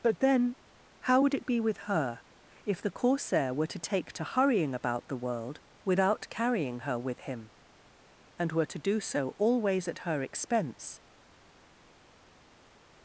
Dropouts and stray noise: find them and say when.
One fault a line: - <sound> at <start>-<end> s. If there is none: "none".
none